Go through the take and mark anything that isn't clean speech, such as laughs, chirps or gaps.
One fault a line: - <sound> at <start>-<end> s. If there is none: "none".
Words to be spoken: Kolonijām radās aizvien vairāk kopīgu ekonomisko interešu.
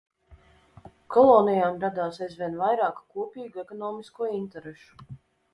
none